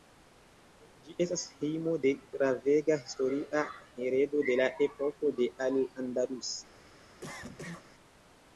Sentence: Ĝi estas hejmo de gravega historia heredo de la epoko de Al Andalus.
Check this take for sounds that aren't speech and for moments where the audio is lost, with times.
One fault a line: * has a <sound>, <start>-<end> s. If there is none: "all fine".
* has a cough, 7.2-7.9 s